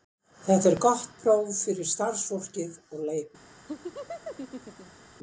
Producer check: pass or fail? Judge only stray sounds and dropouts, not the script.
fail